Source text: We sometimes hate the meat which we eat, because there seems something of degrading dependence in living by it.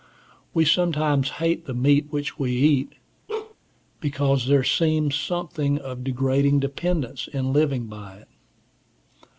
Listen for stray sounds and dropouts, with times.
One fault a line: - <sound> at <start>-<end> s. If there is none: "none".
- bark at 3.3-3.6 s